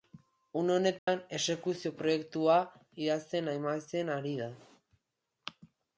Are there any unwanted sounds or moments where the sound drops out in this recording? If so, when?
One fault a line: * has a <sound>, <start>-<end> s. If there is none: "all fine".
* has a dropout, 1.0-1.1 s